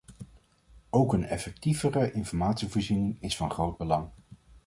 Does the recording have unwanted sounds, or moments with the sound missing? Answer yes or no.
no